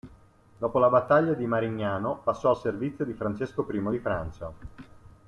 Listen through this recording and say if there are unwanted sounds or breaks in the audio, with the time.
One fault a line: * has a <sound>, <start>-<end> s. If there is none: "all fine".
all fine